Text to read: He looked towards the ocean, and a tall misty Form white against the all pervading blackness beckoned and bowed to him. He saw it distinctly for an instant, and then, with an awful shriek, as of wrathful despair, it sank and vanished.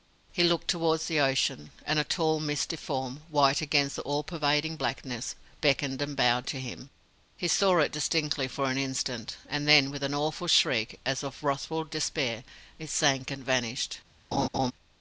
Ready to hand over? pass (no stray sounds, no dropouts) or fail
fail